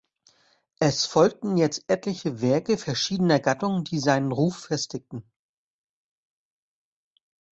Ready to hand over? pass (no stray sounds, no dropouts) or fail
pass